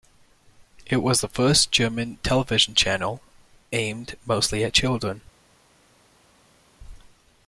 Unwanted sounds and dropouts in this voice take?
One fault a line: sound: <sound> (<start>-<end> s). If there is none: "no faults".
no faults